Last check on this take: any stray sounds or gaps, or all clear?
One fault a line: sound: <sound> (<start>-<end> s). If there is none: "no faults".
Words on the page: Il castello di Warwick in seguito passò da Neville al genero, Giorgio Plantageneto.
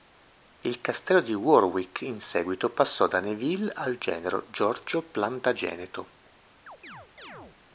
sound: chirp (6.7-7.6 s)